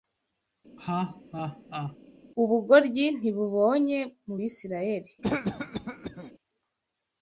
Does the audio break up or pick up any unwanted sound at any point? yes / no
yes